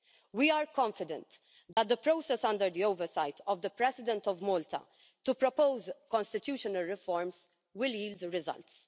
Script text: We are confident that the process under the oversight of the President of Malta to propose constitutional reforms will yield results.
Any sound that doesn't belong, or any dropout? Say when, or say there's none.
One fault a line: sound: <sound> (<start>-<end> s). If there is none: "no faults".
sound: dropout (1.7-1.8 s)